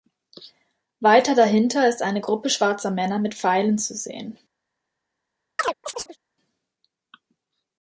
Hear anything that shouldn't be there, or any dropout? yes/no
yes